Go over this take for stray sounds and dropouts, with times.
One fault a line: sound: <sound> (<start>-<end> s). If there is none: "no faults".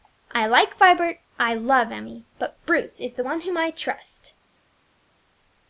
no faults